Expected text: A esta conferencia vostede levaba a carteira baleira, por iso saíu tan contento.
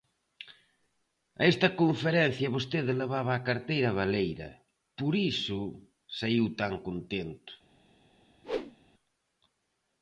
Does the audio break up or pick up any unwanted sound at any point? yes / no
yes